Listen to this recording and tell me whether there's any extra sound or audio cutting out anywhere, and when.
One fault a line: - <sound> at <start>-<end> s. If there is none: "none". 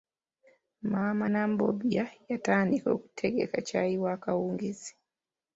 none